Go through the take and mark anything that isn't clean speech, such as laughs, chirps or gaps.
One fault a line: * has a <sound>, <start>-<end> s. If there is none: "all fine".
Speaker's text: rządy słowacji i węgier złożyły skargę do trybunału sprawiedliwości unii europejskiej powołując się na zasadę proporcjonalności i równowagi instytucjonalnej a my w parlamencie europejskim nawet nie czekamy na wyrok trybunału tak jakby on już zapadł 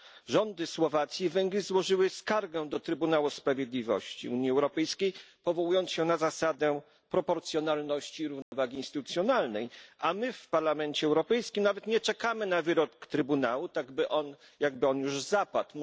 * has a dropout, 8.4-8.5 s